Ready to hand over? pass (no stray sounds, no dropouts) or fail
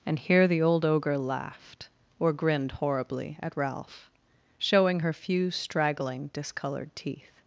pass